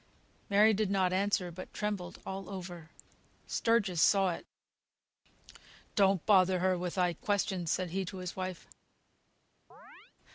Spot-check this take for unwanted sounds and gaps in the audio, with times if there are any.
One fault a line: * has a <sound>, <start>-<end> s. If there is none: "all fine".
* has a chirp, 9.7-10.1 s